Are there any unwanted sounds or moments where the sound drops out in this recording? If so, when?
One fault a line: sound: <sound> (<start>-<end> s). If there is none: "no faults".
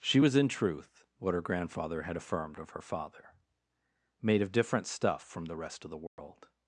sound: dropout (6.1-6.2 s)